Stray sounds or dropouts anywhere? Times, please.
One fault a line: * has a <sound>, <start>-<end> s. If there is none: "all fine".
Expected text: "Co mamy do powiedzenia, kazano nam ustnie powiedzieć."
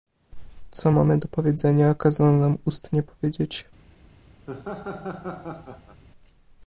* has a laugh, 4.5-6.0 s